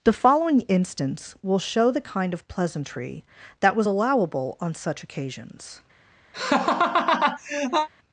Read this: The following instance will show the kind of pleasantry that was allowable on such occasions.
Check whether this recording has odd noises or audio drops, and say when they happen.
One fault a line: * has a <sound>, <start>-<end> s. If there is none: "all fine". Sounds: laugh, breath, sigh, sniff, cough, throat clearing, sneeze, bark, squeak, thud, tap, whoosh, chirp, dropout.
* has a laugh, 6.3-7.9 s